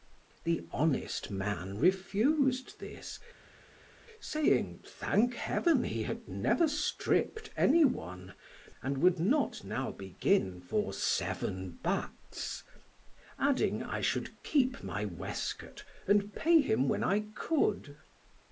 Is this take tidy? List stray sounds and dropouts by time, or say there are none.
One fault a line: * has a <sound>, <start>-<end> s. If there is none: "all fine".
all fine